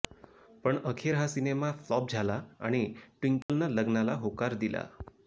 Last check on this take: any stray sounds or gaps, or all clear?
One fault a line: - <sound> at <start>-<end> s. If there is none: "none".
- dropout at 3.4-3.5 s